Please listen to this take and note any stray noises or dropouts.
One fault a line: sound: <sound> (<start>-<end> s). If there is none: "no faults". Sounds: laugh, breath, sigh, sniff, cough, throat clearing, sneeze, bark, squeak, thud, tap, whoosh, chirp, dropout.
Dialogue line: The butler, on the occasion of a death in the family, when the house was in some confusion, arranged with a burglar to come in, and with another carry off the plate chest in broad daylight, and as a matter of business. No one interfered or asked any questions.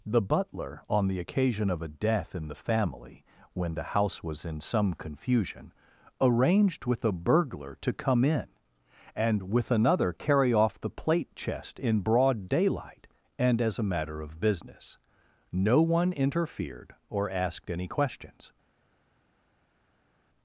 no faults